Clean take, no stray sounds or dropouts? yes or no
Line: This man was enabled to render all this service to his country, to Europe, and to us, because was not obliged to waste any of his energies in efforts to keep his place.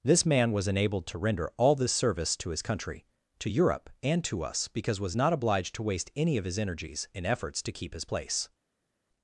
yes